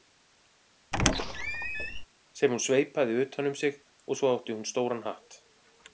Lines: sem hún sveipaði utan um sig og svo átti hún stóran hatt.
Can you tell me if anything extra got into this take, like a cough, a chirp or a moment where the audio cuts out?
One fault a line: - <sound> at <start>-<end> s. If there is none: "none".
- squeak at 0.9-2.0 s